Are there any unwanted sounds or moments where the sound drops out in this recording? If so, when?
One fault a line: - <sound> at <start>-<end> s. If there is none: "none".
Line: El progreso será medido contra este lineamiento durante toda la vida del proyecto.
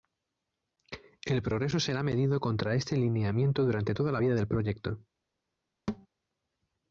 - thud at 5.9-6.1 s